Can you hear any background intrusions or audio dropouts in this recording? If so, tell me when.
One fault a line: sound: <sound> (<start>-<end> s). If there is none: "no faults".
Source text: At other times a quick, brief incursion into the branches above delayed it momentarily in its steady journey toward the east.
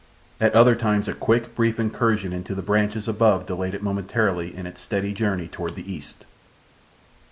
no faults